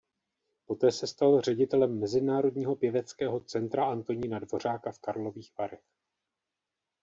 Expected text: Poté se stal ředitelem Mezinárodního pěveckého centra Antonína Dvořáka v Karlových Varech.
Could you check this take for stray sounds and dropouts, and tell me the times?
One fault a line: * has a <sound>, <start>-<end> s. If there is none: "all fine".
all fine